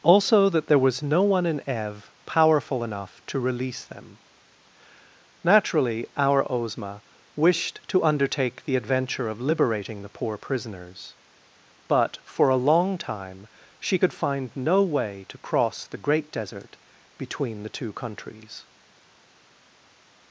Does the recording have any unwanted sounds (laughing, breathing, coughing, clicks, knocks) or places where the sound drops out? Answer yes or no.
no